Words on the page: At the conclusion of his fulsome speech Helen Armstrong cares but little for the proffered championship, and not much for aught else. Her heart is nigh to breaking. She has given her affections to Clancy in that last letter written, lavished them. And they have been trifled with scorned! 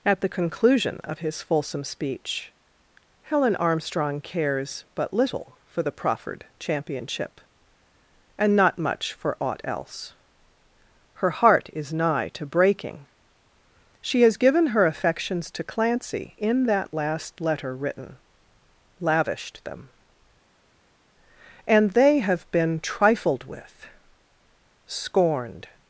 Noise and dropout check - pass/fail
pass